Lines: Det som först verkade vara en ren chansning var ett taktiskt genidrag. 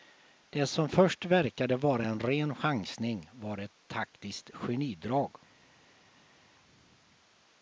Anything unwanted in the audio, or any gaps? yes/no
no